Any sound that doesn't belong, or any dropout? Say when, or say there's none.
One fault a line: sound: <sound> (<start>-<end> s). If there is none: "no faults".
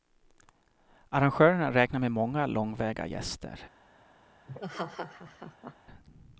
sound: laugh (4.5-5.8 s)